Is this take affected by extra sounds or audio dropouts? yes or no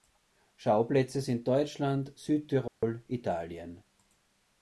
yes